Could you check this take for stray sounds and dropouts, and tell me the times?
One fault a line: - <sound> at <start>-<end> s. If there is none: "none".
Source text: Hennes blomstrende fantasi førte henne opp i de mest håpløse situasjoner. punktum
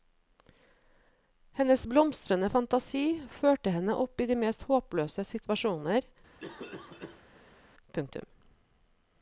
- cough at 6.4-7.6 s